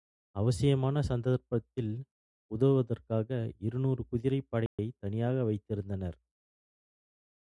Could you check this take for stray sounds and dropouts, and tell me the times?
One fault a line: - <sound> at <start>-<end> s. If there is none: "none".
- dropout at 4.7-4.8 s